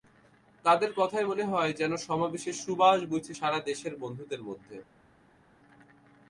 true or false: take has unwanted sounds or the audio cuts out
false